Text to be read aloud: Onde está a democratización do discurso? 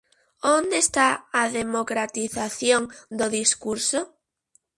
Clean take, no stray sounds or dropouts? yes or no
yes